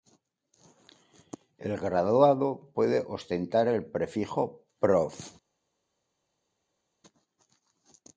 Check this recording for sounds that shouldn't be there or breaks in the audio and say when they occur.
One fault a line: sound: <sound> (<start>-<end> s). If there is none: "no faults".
no faults